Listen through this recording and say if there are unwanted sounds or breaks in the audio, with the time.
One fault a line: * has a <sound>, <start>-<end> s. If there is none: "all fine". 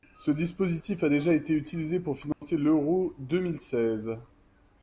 * has a dropout, 2.3-2.4 s